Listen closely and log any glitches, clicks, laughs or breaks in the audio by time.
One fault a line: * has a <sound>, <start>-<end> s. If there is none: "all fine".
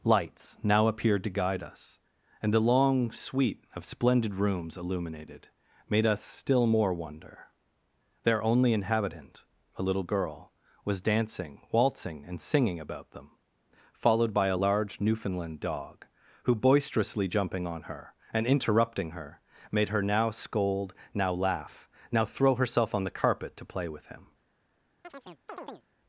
* has a chirp, 25.0-25.9 s